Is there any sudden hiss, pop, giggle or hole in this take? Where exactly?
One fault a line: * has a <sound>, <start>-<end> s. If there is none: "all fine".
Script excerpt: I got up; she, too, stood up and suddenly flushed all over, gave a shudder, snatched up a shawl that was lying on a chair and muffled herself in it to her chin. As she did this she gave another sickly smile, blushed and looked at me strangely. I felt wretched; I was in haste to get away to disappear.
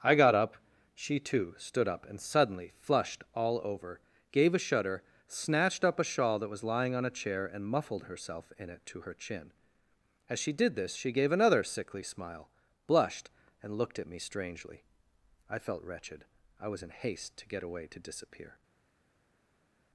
all fine